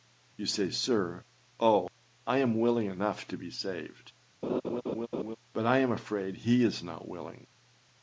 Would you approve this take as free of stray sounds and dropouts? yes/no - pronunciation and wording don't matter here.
no